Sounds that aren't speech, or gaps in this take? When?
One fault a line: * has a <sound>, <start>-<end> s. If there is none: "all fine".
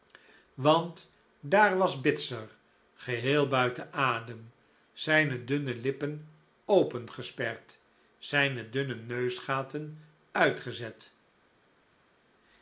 all fine